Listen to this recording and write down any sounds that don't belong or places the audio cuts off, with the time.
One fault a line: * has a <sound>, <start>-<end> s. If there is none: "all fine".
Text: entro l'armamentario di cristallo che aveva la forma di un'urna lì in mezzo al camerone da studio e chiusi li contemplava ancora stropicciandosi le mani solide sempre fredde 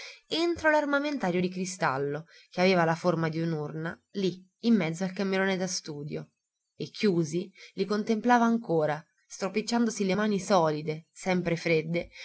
all fine